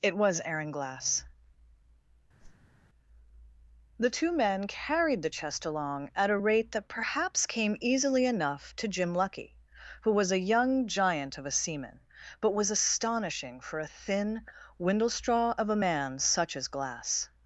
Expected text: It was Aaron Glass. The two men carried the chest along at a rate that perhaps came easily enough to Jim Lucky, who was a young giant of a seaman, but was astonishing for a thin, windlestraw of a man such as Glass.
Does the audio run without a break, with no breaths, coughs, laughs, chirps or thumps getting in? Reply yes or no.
no